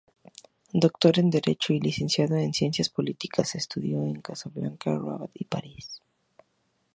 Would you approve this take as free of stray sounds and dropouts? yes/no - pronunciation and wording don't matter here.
yes